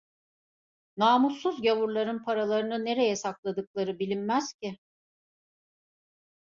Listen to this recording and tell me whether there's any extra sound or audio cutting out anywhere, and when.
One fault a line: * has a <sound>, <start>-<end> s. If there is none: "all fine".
all fine